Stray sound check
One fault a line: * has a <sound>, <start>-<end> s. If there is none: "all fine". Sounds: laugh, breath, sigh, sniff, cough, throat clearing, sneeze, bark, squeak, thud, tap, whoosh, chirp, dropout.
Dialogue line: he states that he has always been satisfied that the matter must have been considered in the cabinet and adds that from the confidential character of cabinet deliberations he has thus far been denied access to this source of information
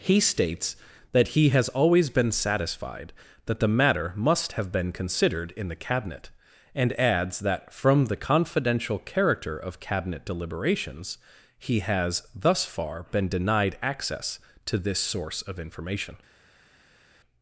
all fine